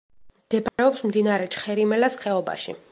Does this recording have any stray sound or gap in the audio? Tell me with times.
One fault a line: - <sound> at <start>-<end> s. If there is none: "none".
- dropout at 0.7-0.8 s